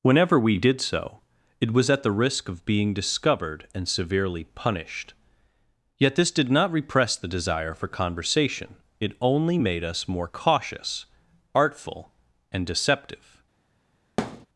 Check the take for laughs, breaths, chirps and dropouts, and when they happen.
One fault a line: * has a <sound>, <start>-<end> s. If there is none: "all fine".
* has a thud, 14.2-14.5 s